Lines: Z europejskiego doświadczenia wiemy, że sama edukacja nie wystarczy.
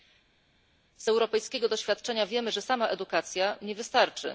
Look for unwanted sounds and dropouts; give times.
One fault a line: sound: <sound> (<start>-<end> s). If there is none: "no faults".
no faults